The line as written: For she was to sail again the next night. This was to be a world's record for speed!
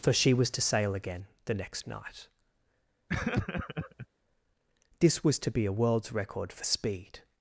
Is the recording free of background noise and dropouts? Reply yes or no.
no